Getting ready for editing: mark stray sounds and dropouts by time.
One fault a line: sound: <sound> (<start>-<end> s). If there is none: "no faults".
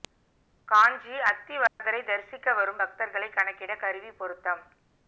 sound: dropout (1.7-1.8 s)